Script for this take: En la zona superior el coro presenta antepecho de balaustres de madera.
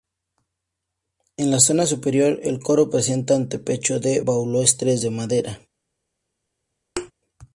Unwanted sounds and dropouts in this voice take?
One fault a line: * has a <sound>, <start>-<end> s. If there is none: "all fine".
* has a thud, 7.0-7.1 s